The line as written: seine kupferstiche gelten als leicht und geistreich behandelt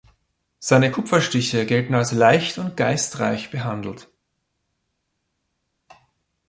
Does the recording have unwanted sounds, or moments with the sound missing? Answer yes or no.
no